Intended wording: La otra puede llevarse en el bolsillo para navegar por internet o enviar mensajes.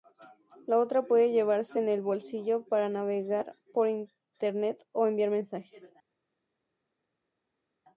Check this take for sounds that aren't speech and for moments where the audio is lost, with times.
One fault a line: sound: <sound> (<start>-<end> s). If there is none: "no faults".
no faults